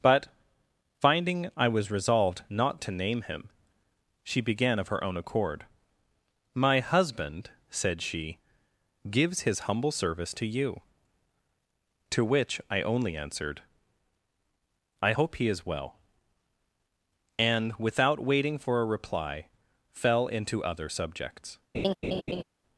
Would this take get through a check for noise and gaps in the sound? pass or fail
fail